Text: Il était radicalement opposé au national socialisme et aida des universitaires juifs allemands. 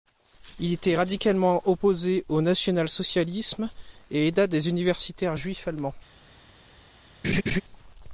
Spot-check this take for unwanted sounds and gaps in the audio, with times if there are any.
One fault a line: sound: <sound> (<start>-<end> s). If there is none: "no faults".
sound: laugh (7.2-7.6 s)